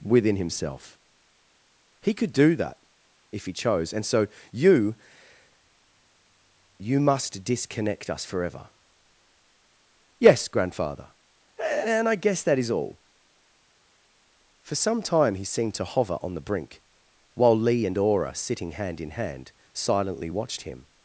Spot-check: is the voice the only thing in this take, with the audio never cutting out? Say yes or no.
yes